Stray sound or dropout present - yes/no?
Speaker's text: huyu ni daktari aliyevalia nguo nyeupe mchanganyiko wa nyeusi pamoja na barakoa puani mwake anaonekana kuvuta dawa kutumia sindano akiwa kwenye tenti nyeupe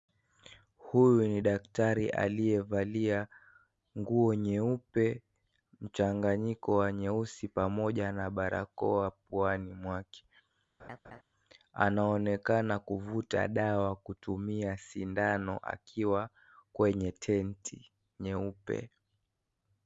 yes